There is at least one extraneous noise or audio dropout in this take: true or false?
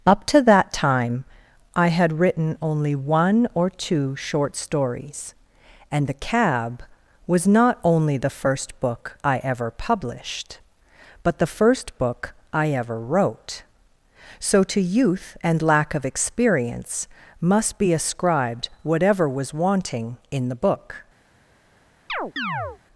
true